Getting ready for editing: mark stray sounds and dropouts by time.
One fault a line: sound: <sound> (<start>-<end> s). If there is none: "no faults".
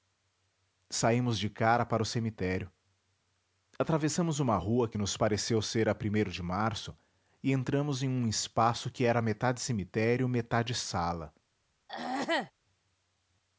sound: throat clearing (11.9-12.5 s)